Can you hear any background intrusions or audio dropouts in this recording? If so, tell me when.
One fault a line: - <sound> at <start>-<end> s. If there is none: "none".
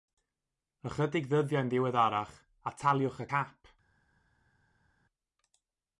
none